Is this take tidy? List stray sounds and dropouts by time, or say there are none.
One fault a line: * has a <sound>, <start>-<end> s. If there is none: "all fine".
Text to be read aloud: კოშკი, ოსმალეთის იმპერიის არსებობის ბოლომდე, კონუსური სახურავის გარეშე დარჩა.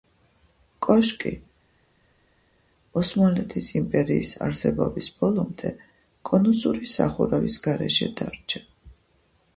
all fine